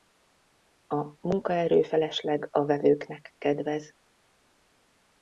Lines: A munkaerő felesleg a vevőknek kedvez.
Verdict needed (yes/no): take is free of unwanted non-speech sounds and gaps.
yes